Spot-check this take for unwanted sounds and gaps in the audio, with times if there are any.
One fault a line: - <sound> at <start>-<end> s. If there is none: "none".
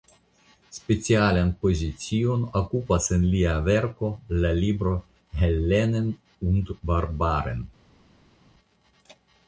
none